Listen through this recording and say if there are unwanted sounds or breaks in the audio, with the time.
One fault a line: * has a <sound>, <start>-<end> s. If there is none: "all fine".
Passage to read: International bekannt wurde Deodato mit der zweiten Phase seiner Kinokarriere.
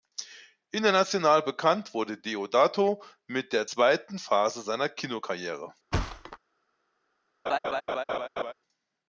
* has a thud, 5.9-6.4 s
* has a laugh, 7.5-8.5 s